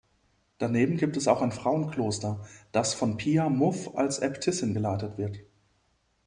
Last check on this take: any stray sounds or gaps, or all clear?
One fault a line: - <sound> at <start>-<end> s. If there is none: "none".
none